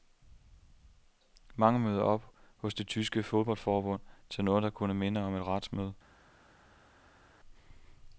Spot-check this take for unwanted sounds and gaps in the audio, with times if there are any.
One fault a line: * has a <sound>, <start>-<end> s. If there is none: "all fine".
all fine